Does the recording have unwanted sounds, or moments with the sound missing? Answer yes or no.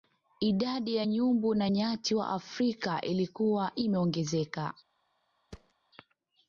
yes